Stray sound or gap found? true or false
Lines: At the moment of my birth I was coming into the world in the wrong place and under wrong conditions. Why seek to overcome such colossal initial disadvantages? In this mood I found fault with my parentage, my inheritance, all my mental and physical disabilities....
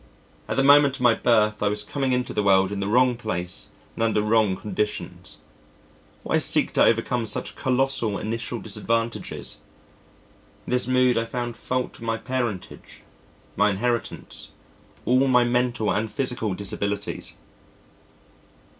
false